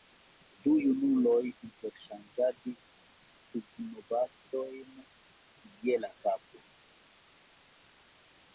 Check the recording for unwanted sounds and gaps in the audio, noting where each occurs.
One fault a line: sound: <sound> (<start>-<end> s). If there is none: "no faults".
no faults